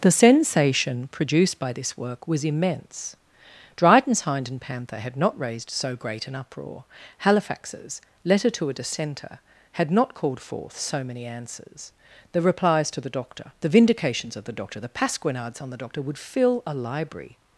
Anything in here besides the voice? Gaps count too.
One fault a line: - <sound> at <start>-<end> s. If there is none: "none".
none